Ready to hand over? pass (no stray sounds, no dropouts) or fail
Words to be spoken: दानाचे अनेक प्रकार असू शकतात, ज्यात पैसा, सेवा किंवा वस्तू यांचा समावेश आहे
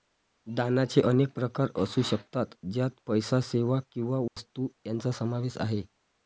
fail